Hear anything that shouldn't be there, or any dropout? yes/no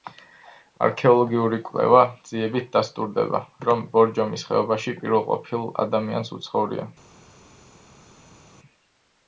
no